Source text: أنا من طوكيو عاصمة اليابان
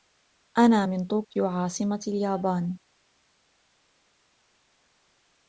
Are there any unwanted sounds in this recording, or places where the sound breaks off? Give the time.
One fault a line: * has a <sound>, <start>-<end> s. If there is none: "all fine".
all fine